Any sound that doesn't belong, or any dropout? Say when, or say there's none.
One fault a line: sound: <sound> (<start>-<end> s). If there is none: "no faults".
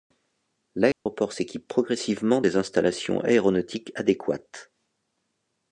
sound: dropout (0.9-1.1 s)